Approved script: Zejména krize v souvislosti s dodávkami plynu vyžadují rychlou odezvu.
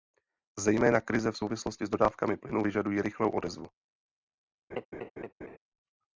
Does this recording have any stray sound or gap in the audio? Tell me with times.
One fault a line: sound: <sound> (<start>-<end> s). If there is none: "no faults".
sound: laugh (4.7-5.6 s)